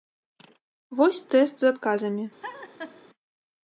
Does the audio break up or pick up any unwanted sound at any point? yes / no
yes